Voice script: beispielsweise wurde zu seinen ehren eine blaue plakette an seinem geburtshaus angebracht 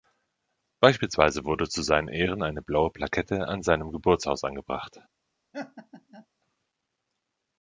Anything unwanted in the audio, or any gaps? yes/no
yes